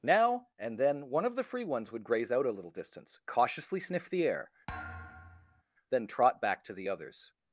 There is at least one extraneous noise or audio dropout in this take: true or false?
true